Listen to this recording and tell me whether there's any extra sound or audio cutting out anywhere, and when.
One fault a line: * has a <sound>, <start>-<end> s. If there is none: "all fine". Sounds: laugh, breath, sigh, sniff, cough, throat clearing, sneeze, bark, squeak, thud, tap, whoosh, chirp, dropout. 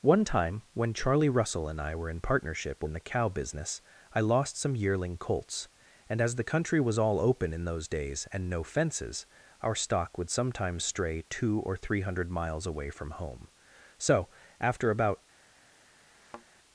* has a thud, 16.1-16.5 s